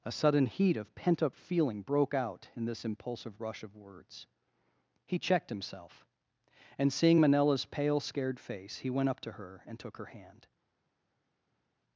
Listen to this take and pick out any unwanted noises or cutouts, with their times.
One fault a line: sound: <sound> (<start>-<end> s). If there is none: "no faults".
no faults